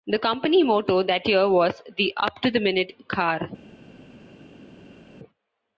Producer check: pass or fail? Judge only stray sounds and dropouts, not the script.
pass